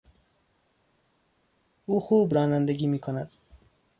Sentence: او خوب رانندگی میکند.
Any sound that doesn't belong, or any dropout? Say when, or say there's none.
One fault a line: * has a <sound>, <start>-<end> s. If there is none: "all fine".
all fine